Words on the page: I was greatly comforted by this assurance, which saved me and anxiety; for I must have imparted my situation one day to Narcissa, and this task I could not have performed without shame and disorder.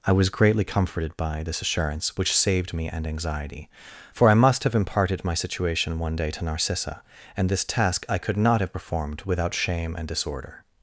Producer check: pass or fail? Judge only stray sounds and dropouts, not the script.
pass